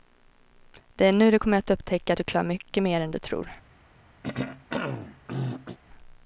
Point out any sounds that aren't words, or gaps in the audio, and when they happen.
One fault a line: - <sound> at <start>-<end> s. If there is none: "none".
- throat clearing at 4.2-5.8 s